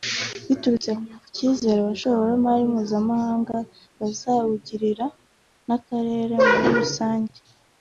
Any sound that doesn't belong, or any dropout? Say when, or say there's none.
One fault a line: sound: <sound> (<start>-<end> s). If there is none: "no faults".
no faults